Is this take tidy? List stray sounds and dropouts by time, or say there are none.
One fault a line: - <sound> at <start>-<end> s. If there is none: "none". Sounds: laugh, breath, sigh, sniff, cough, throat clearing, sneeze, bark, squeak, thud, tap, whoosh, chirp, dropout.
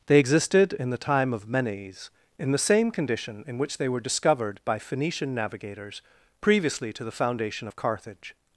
none